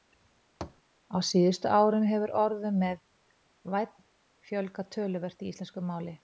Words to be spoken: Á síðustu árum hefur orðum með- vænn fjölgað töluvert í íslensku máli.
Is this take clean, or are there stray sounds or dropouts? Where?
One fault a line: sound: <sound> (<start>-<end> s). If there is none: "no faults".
sound: thud (0.6-0.8 s)